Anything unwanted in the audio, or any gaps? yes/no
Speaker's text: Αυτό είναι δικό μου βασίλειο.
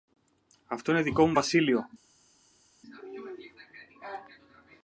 no